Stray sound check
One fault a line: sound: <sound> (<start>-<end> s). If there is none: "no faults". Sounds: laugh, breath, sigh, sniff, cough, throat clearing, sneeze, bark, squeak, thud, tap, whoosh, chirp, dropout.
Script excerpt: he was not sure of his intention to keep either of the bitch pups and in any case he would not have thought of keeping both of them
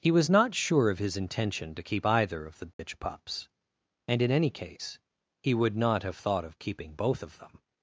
sound: dropout (2.7-2.8 s)